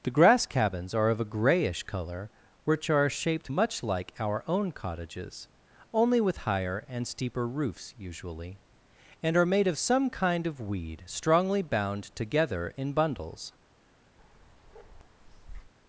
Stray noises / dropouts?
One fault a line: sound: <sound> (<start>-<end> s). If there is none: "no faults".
sound: bark (14.2-15.7 s)